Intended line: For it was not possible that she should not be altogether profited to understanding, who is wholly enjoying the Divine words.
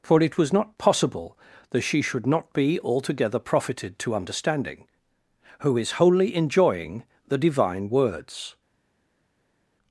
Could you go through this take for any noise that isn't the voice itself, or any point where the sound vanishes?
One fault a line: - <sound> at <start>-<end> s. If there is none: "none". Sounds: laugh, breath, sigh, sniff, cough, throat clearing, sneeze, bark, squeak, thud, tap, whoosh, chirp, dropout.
none